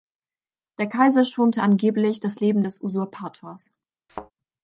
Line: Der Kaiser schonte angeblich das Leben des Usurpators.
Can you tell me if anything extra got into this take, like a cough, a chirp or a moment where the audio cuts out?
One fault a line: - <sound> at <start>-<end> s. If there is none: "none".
- thud at 4.1-4.3 s